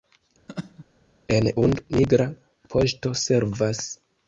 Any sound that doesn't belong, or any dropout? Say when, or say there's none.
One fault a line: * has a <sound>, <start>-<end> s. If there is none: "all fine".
* has a laugh, 0.5-0.9 s